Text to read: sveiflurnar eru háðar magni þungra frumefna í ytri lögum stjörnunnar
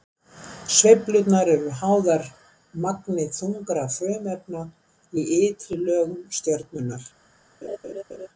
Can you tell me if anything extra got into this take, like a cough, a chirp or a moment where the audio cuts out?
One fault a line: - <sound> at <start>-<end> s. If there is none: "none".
- laugh at 7.6-8.3 s